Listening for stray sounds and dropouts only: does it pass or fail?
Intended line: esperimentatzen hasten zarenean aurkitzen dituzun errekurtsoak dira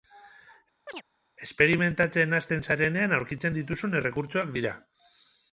fail